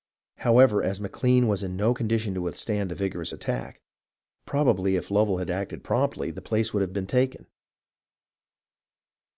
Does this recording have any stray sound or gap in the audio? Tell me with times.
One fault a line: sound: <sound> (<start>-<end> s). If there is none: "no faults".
no faults